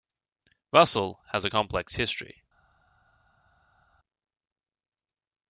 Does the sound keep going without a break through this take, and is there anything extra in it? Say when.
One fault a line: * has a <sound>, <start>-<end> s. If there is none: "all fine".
all fine